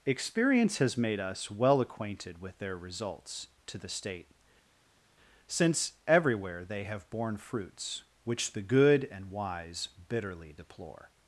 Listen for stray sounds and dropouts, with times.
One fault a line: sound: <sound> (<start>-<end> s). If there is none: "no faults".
no faults